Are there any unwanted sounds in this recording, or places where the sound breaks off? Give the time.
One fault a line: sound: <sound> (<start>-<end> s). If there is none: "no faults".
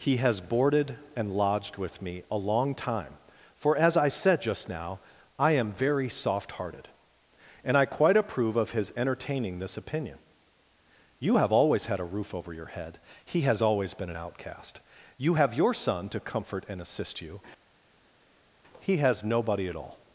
no faults